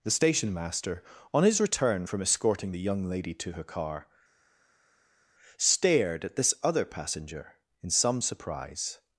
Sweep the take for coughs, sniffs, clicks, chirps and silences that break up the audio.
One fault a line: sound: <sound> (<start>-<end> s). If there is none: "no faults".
no faults